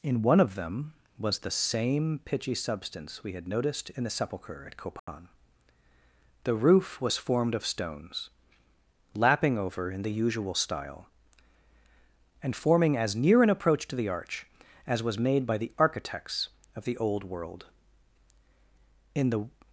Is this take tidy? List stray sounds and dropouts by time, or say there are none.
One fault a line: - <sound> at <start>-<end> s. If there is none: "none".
- dropout at 5.0-5.1 s